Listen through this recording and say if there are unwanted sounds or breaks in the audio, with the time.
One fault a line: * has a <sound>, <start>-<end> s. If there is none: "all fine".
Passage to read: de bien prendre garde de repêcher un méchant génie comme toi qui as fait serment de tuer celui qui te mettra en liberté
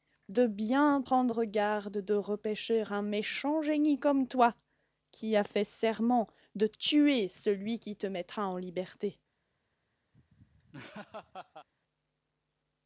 * has a laugh, 10.1-11.7 s